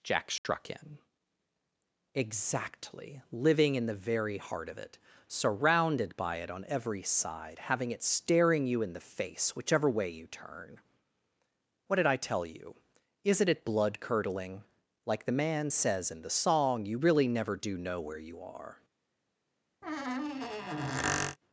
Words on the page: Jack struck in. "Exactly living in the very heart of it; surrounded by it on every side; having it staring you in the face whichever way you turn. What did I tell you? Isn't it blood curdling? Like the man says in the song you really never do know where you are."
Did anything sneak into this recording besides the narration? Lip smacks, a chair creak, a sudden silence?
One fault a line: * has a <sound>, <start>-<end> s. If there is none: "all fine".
* has a dropout, 0.4-0.4 s
* has a squeak, 19.8-21.4 s